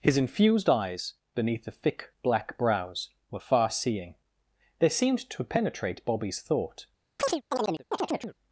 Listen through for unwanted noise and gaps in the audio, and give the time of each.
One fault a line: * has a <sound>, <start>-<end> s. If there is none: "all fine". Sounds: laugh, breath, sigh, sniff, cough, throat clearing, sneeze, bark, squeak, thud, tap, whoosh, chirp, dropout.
* has a chirp, 7.2-8.4 s